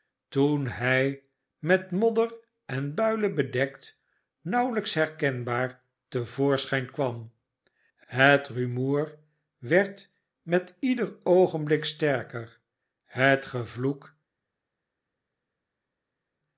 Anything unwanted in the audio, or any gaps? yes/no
no